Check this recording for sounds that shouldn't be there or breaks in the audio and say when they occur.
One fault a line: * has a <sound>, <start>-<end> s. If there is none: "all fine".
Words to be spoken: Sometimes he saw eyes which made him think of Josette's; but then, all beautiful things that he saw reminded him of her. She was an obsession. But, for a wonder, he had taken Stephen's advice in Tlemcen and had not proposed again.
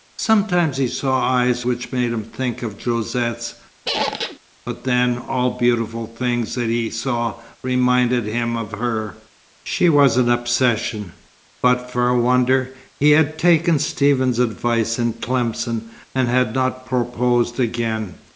* has a squeak, 3.9-4.4 s